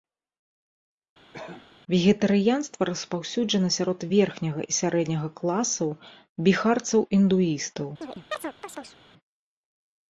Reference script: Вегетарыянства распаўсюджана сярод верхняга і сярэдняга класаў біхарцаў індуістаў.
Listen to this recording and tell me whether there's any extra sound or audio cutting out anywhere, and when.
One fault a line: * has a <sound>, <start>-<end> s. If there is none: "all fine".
* has a cough, 1.3-1.7 s
* has a chirp, 8.0-9.0 s